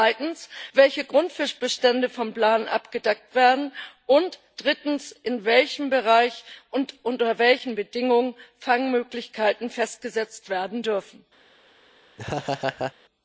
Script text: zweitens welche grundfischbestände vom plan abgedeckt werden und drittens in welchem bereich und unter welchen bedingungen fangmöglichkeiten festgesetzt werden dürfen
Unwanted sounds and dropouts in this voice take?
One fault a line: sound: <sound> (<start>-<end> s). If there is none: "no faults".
sound: laugh (12.2-12.9 s)